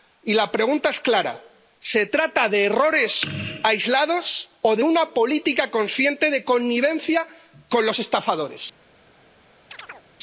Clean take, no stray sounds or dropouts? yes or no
no